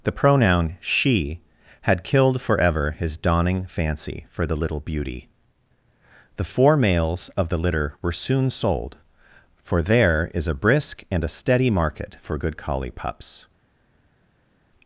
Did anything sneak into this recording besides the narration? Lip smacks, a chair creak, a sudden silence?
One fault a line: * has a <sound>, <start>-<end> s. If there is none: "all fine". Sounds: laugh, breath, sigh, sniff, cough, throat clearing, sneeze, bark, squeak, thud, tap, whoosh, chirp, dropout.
all fine